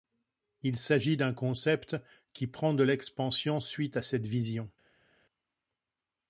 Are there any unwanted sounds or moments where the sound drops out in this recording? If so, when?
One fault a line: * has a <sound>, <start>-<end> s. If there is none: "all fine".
all fine